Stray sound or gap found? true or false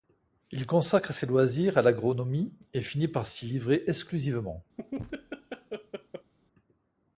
true